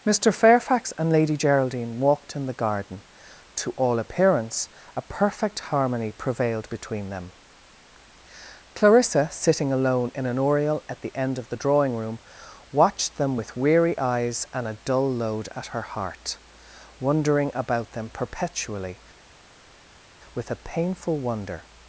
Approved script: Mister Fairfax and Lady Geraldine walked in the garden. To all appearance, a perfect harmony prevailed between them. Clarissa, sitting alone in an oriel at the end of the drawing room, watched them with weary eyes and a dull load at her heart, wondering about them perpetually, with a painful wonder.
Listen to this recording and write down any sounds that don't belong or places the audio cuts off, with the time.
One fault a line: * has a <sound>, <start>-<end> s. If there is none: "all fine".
all fine